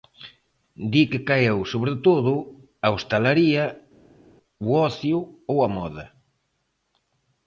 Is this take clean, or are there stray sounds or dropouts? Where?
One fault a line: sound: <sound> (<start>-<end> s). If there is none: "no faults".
no faults